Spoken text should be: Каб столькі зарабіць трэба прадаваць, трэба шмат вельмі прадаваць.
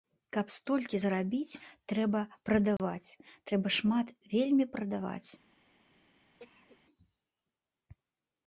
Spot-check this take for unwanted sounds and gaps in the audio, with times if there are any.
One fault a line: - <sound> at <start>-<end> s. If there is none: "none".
- dropout at 2.8-2.8 s
- cough at 6.4-6.8 s